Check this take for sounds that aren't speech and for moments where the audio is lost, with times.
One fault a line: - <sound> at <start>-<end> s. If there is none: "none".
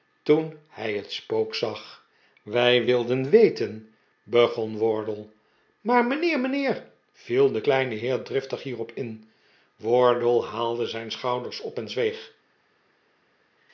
none